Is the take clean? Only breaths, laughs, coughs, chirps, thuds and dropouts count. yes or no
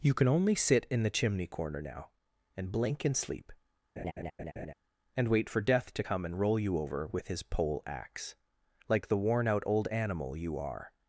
no